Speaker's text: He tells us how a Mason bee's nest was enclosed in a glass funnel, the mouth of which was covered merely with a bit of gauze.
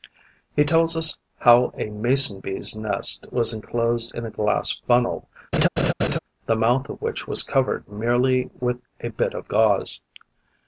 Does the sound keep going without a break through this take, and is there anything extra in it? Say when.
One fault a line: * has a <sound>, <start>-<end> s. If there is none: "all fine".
* has a laugh, 5.5-6.2 s